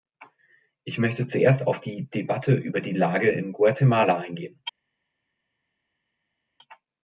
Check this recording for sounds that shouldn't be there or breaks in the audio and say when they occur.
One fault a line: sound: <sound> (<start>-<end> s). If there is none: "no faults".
no faults